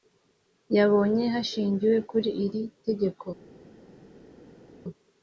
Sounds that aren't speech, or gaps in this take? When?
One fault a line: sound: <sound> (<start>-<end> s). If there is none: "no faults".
no faults